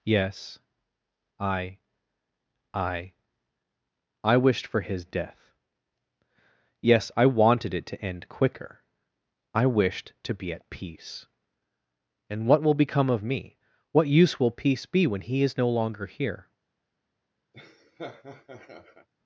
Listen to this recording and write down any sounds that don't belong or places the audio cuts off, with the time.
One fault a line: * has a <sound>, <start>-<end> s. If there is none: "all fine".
* has a laugh, 17.5-19.1 s